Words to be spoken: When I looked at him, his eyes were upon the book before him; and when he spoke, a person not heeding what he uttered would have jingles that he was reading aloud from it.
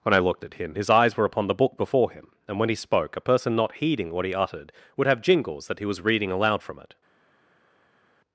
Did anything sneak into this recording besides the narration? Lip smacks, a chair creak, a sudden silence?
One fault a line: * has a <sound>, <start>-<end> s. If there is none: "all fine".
all fine